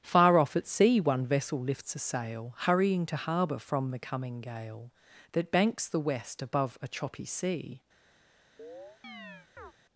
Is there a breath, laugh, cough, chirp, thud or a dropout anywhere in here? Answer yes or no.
yes